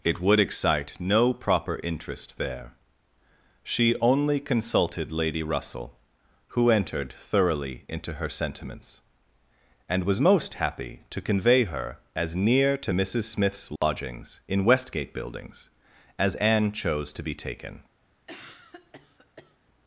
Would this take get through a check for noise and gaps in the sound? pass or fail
fail